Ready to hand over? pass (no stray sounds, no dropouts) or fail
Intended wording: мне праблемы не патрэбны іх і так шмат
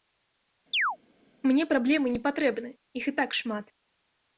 fail